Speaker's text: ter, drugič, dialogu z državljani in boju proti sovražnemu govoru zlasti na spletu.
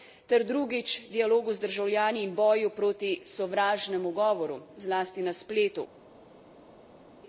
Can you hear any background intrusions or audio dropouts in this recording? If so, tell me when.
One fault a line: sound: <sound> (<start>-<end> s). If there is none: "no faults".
no faults